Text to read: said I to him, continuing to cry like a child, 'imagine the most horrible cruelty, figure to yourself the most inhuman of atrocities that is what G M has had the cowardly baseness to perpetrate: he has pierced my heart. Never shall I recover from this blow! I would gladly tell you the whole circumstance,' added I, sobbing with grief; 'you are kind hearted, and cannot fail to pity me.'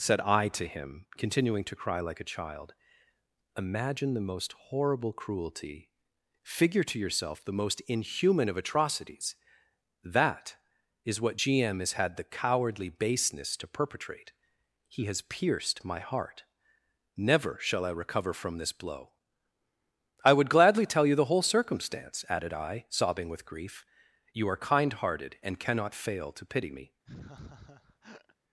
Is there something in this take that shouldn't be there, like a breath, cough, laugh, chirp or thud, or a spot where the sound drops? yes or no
yes